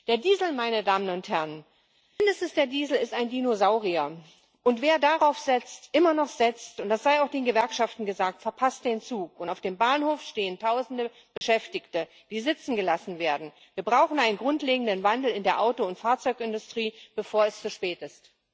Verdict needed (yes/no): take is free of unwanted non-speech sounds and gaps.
no